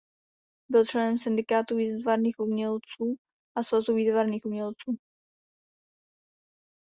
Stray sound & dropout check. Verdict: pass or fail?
pass